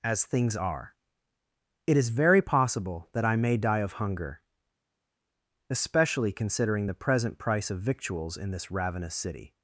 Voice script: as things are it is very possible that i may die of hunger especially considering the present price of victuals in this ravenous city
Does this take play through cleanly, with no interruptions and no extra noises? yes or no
yes